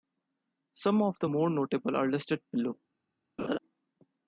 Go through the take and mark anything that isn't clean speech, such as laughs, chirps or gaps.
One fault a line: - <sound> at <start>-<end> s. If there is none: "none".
- laugh at 3.4-3.6 s